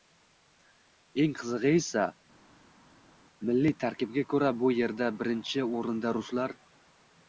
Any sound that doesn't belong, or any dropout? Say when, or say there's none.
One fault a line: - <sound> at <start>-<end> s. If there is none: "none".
none